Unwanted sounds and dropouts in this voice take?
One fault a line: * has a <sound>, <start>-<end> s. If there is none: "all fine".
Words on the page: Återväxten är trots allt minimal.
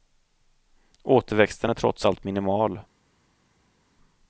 all fine